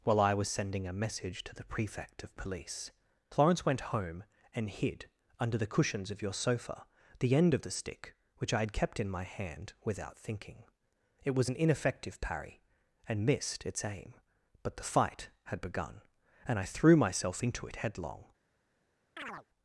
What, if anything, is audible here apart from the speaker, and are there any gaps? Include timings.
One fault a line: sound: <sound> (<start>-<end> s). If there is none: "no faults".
sound: chirp (19.2-19.5 s)